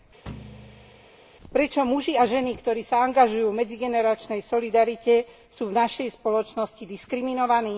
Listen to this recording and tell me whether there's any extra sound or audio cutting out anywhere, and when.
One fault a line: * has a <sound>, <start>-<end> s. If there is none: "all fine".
* has a thud, 0.3-1.1 s